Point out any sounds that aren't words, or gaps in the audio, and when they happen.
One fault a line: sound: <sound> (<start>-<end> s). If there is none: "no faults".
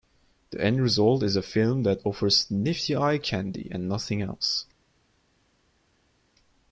no faults